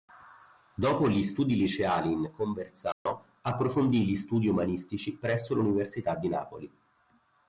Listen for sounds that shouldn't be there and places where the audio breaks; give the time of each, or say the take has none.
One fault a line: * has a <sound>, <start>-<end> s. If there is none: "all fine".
* has a dropout, 2.9-3.1 s